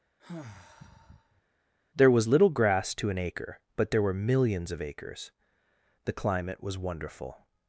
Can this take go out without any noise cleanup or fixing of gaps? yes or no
no